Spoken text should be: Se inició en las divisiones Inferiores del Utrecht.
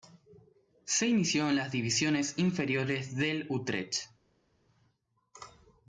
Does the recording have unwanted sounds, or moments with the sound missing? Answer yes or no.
no